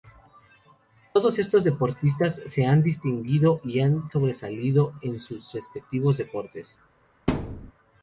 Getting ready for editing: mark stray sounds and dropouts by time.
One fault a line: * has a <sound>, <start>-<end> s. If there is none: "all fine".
* has a thud, 7.3-7.7 s